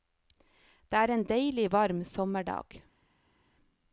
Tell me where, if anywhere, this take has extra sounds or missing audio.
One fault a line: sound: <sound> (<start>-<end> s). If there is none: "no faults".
no faults